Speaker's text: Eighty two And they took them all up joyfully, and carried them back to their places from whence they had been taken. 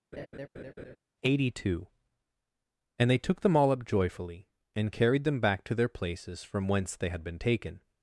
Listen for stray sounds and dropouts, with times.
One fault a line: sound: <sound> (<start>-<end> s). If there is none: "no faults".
sound: laugh (0.1-1.0 s)